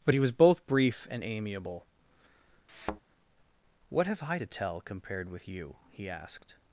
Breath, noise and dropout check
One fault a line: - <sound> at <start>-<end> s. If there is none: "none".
- thud at 2.7-3.0 s